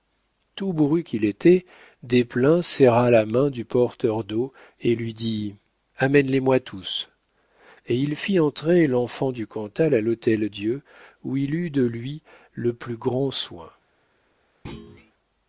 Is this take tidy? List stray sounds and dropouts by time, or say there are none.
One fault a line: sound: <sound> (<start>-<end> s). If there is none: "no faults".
sound: thud (14.6-15.1 s)